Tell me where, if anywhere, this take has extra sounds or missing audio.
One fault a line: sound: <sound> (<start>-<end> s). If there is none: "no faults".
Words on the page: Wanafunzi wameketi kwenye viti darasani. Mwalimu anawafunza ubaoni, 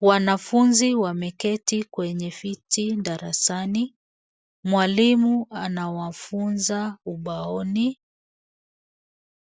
no faults